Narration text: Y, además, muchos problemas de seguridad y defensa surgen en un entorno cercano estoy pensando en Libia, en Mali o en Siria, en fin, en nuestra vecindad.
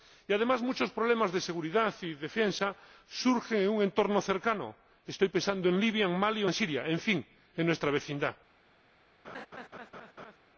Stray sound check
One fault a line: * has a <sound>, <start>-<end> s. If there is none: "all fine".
* has a laugh, 9.2-10.4 s